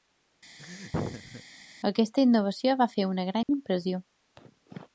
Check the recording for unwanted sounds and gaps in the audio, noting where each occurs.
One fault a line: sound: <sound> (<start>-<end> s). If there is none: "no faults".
sound: laugh (0.6-1.4 s)
sound: dropout (3.4-3.5 s)